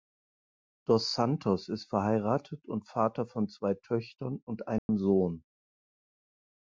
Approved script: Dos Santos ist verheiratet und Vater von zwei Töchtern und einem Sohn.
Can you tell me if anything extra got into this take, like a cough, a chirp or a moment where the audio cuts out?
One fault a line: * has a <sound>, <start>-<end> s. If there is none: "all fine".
* has a dropout, 4.8-4.9 s